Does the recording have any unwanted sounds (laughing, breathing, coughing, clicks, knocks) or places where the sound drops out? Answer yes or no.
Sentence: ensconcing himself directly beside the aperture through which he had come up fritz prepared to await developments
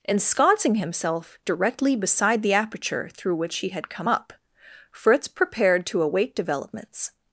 no